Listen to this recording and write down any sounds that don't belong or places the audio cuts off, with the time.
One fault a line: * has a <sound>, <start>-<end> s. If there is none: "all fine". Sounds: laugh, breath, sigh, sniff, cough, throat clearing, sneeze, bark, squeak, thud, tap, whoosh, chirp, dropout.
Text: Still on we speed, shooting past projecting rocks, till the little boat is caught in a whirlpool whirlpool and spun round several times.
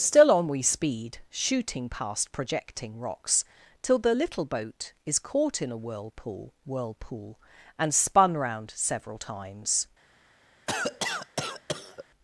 * has a cough, 10.7-12.0 s